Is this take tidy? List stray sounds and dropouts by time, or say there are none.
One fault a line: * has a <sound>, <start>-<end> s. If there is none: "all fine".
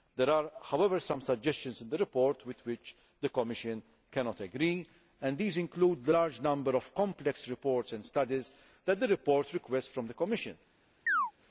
* has a chirp, 11.1-11.3 s